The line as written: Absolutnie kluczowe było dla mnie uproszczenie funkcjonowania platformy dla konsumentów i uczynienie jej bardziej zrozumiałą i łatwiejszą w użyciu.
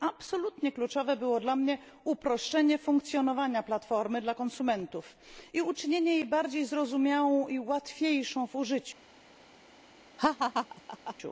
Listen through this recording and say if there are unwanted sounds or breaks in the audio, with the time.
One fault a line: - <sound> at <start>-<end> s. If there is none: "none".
- laugh at 10.2-11.2 s